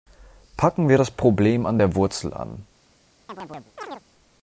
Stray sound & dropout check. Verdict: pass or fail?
fail